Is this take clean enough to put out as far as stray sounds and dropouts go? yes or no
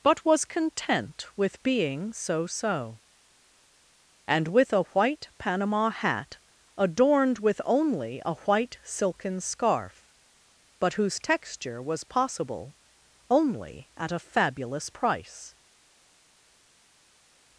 yes